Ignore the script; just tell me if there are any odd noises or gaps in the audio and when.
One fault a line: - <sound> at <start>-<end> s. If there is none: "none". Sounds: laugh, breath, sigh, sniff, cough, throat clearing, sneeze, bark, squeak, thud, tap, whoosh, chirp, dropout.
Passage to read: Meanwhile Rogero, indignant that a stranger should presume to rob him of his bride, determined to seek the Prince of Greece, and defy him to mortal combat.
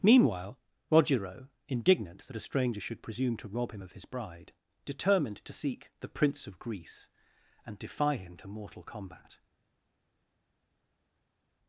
none